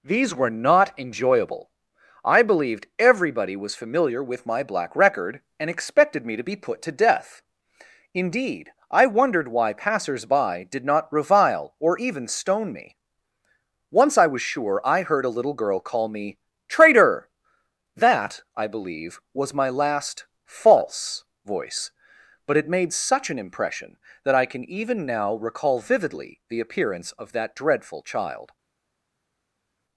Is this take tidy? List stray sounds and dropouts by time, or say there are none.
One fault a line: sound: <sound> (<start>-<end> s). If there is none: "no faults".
no faults